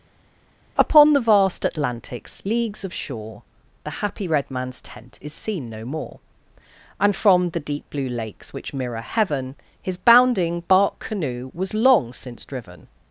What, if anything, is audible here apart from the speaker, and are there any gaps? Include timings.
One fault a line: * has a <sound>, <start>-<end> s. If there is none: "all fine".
all fine